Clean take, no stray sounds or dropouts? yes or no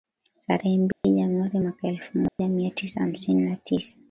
no